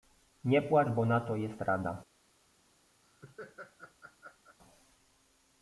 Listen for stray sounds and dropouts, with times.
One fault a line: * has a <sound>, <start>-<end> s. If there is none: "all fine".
* has a laugh, 3.0-4.6 s